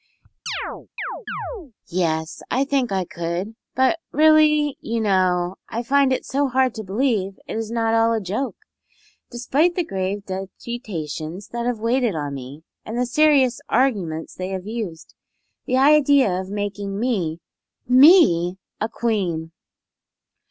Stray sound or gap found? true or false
true